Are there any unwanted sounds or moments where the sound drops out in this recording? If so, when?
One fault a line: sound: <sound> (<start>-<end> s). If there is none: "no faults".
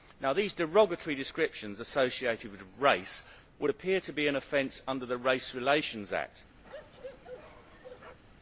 sound: bark (6.6-8.2 s)